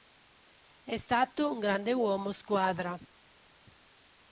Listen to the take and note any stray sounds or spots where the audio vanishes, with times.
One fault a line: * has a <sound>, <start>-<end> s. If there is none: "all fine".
all fine